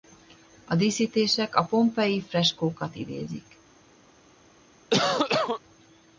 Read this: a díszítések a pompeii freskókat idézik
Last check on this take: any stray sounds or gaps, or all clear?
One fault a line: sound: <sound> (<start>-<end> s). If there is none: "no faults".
sound: cough (4.9-5.6 s)